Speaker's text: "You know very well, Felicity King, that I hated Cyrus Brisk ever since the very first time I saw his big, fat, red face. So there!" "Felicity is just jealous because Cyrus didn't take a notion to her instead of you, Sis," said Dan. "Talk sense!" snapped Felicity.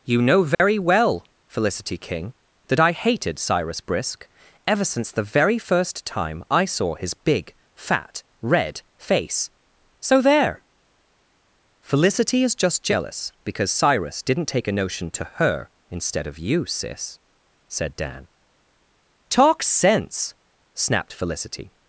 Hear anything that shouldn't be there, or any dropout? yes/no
yes